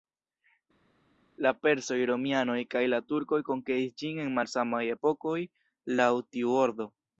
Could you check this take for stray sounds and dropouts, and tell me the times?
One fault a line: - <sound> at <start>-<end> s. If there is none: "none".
none